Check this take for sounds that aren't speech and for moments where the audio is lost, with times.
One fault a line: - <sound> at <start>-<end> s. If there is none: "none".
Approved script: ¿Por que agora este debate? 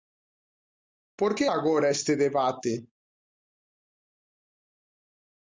none